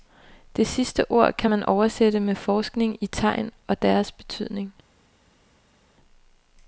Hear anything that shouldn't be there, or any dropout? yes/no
no